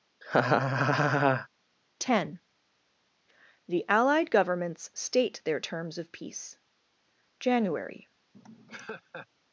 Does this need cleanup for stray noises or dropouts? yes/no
yes